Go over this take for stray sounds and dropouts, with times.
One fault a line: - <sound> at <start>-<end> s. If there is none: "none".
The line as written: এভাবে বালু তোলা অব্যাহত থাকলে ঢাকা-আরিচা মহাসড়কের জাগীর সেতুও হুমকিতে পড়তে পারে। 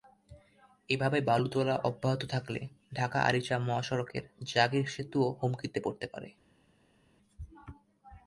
none